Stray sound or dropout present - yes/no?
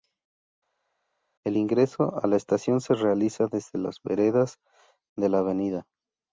no